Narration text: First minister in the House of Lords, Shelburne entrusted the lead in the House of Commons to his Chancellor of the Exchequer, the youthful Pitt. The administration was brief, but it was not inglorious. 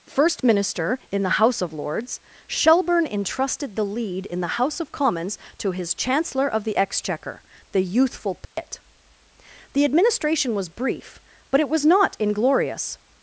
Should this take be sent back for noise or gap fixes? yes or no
yes